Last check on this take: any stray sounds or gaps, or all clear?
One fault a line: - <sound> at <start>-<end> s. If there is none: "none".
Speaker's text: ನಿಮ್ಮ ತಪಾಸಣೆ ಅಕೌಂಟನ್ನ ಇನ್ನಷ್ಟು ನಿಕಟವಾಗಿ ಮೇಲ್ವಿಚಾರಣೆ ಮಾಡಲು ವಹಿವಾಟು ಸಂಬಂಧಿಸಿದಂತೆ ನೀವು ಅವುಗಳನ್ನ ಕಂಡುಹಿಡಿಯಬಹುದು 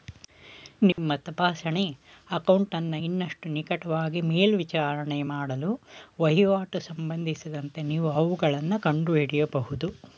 - dropout at 0.9-1.0 s